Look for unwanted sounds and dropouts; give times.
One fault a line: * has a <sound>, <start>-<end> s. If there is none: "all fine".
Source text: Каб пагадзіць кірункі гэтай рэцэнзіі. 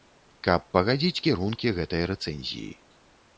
all fine